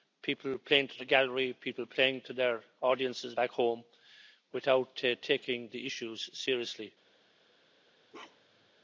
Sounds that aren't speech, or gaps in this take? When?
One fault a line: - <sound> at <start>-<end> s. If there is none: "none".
- bark at 8.1-8.7 s